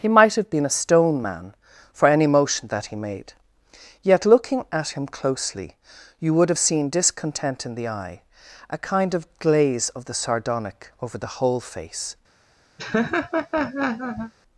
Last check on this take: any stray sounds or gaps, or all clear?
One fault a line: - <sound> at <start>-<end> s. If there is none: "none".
- laugh at 12.8-14.3 s